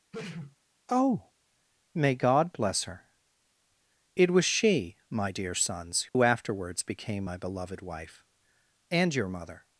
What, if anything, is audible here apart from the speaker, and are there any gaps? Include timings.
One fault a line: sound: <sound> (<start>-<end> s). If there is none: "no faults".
sound: sneeze (0.1-0.6 s)
sound: dropout (6.1-6.1 s)